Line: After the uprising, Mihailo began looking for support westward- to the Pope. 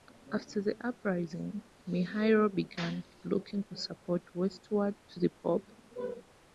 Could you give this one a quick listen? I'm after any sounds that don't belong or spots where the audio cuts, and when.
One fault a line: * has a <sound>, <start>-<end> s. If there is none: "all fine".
all fine